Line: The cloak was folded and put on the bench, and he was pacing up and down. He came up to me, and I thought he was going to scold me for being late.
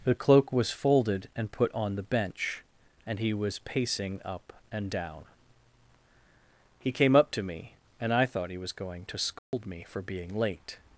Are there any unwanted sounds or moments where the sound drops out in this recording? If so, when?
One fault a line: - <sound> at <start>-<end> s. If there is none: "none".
- dropout at 9.4-9.5 s